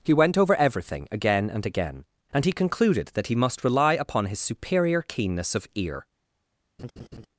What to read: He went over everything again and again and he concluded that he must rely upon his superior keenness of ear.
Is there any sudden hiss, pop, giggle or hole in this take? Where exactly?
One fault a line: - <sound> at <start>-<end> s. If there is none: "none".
- laugh at 6.8-7.3 s